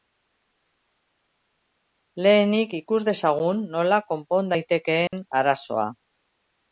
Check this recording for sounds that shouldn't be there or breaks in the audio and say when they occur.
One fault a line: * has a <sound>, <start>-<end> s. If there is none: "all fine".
* has a dropout, 5.1-5.1 s